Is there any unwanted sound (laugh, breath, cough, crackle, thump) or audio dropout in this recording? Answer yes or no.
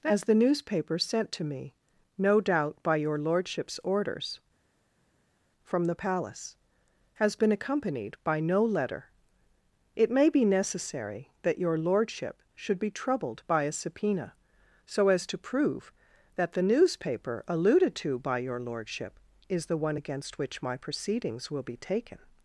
no